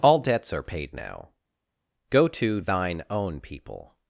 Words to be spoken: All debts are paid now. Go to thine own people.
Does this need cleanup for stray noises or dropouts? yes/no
no